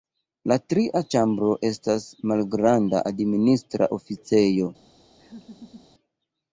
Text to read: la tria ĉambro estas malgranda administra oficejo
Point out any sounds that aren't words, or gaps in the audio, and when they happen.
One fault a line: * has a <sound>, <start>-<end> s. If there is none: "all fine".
* has a laugh, 5.2-5.9 s